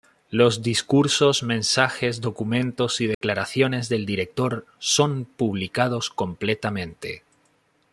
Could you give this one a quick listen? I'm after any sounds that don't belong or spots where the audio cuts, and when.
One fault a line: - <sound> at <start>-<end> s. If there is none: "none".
- dropout at 3.1-3.2 s